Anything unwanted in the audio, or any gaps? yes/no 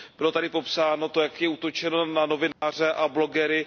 yes